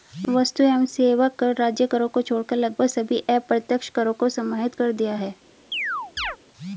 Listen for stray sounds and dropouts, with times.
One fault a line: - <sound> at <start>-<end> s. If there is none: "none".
- chirp at 5.7-6.4 s